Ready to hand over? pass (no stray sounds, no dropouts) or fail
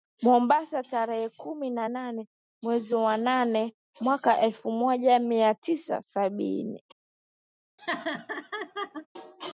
fail